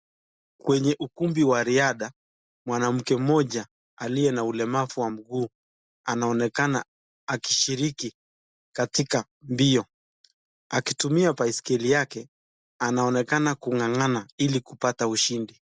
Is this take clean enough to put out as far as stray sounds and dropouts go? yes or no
yes